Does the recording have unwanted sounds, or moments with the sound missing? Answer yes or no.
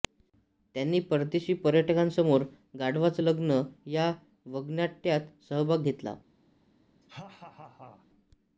yes